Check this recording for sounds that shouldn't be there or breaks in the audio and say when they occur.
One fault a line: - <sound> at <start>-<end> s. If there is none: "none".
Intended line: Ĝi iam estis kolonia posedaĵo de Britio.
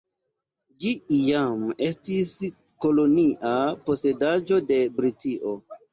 none